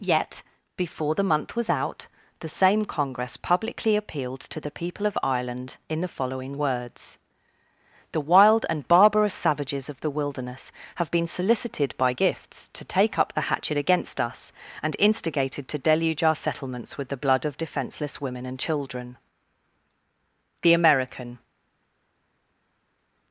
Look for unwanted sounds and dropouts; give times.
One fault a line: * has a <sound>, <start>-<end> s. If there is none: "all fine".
all fine